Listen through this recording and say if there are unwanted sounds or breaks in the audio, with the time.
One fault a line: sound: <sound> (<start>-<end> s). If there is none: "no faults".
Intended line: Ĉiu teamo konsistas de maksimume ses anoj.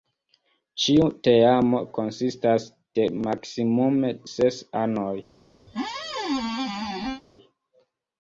sound: squeak (5.7-7.2 s)